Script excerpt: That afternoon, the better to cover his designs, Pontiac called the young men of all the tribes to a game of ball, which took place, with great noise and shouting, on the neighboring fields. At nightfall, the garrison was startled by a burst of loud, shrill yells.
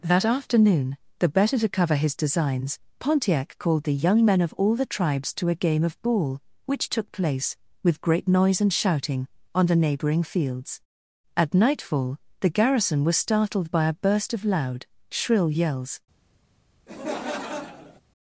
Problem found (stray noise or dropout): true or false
true